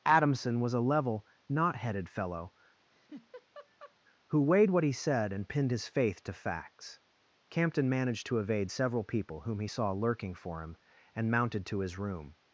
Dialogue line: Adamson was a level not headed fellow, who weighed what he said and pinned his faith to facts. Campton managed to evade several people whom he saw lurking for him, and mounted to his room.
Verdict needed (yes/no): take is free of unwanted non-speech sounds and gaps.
no